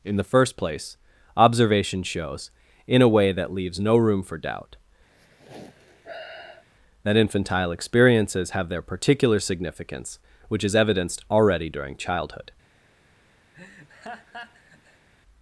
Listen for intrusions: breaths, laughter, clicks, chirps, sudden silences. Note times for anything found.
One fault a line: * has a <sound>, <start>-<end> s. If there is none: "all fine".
* has a sigh, 5.1-6.7 s
* has a laugh, 13.5-15.1 s